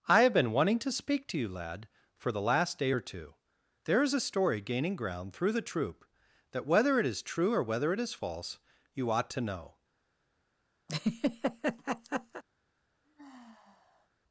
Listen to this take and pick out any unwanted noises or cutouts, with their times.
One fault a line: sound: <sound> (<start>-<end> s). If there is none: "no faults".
sound: laugh (10.9-12.4 s)
sound: sigh (13.0-14.1 s)